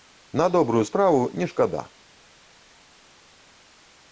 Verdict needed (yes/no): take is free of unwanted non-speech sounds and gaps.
yes